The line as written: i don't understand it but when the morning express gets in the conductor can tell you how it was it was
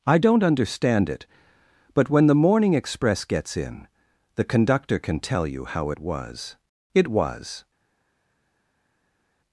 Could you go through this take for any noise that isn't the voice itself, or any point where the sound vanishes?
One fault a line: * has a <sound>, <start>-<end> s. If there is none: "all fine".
all fine